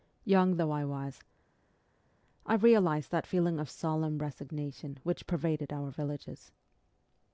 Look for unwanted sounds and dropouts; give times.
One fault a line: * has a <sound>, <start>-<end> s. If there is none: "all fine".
all fine